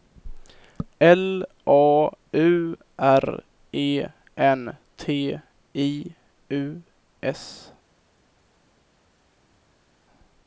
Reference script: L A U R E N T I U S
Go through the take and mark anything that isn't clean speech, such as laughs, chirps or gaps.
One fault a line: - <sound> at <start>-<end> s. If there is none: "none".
none